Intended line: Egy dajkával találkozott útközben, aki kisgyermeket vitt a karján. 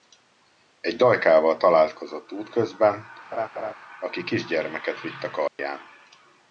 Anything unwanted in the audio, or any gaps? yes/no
yes